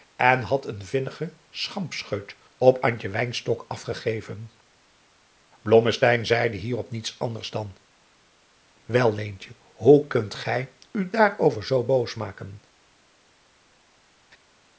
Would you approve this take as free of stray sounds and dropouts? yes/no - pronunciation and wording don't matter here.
yes